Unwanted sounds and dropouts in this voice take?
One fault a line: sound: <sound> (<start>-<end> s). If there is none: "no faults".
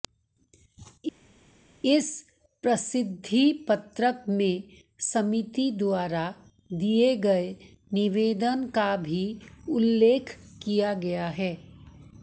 no faults